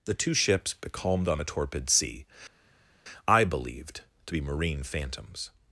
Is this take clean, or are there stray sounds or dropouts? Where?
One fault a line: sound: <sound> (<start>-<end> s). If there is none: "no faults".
no faults